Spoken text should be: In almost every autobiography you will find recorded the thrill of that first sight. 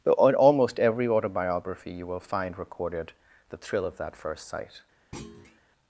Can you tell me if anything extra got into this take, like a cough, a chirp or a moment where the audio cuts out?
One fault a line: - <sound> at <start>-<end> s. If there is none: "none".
- thud at 5.1-5.6 s